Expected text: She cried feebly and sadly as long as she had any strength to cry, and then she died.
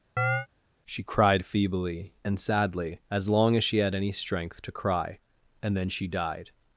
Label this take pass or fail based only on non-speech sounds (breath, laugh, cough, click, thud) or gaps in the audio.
fail